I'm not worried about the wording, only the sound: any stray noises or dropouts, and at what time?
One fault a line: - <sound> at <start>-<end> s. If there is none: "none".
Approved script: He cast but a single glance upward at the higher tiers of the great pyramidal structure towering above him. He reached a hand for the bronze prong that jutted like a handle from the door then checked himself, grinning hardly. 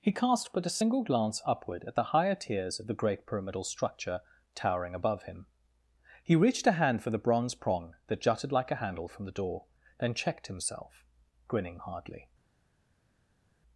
none